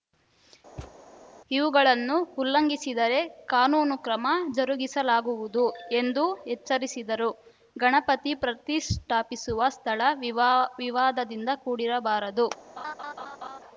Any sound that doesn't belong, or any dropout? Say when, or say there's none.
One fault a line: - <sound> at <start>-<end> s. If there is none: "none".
- thud at 0.8-1.0 s
- laugh at 12.8-13.6 s